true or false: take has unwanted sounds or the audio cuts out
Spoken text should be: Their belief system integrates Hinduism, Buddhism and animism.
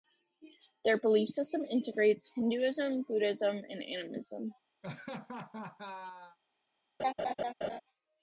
true